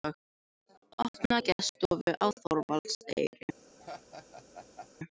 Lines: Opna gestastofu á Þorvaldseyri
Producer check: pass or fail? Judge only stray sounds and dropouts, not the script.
fail